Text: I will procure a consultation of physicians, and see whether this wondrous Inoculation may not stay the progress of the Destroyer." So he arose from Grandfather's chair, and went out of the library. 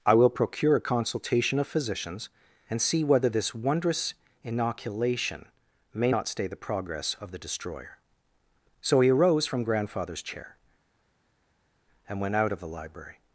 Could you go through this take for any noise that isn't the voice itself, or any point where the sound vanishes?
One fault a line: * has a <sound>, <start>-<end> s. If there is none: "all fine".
all fine